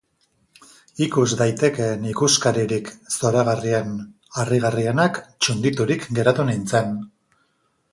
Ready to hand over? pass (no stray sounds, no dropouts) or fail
pass